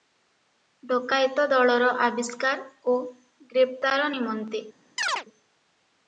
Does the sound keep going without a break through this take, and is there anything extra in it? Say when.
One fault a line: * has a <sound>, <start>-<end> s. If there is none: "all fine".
* has a chirp, 5.0-5.3 s